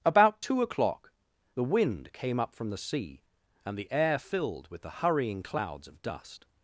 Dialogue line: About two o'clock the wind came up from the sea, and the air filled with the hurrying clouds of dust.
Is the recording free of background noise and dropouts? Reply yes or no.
yes